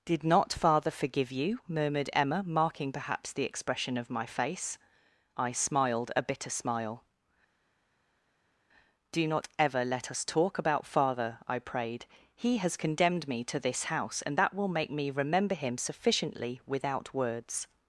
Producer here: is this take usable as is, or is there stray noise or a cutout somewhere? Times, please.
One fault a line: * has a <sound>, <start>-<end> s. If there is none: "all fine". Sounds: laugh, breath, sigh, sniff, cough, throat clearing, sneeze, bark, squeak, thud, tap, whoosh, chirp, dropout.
all fine